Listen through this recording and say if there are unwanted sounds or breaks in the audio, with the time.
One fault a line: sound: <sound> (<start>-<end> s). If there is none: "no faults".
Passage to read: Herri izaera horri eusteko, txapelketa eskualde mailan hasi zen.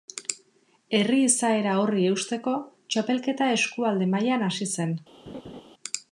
sound: laugh (5.3-5.6 s)